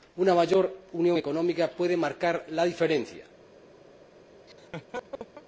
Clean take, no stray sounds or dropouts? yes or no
no